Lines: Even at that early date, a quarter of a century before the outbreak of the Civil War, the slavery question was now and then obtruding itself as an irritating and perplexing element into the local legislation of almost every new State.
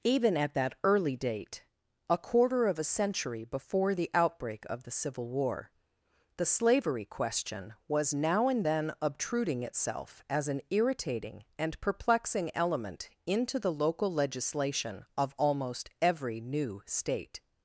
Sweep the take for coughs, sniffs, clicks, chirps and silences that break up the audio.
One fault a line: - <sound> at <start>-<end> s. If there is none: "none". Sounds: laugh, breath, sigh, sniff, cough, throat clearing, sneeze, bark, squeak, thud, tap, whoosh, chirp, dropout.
none